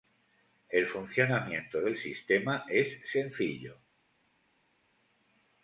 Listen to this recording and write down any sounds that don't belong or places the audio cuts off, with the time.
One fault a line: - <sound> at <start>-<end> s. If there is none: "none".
none